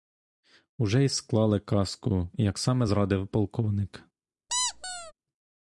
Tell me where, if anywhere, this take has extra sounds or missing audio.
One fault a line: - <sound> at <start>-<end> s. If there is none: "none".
- squeak at 4.5-5.1 s